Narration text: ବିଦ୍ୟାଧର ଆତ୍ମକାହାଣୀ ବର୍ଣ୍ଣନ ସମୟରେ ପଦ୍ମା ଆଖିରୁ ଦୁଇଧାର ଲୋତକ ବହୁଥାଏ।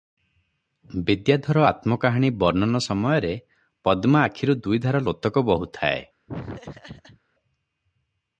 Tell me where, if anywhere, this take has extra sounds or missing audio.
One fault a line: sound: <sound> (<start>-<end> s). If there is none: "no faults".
sound: laugh (6.3-7.2 s)